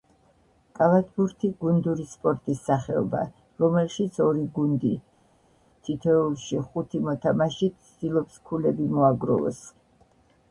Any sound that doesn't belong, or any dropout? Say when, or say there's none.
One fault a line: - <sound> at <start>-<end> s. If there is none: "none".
none